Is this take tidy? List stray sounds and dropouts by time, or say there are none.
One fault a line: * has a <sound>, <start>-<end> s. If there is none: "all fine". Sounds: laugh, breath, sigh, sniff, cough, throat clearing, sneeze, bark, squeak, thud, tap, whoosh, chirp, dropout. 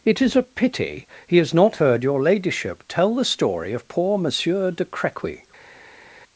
all fine